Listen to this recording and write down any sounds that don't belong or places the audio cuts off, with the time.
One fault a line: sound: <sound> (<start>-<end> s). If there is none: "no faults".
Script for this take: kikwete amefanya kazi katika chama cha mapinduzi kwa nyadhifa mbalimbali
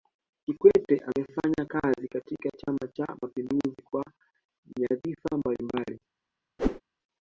sound: whoosh (6.6-6.8 s)